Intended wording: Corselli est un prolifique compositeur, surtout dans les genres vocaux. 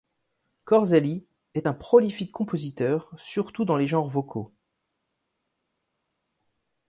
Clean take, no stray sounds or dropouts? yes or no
yes